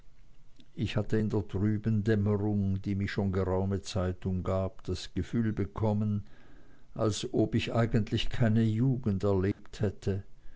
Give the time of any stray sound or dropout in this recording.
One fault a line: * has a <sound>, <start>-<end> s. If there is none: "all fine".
* has a dropout, 9.5-9.6 s